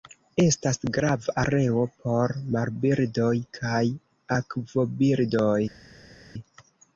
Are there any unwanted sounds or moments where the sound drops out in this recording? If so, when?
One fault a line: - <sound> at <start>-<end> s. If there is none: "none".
none